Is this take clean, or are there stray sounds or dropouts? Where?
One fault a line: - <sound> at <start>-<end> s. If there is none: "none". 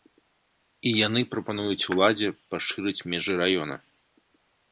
none